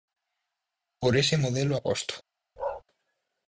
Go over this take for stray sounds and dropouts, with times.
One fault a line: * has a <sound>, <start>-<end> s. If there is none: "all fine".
* has a bark, 2.6-2.8 s